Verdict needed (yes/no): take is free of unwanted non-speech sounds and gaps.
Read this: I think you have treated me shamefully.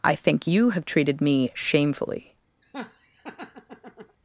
no